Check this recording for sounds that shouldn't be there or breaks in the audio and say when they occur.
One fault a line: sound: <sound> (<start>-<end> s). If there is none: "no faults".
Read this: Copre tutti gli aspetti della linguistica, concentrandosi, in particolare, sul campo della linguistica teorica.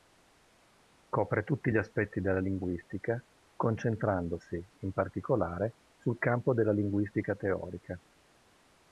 no faults